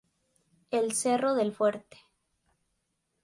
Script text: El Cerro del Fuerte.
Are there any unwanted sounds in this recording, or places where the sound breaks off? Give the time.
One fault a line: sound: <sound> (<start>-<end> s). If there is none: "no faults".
no faults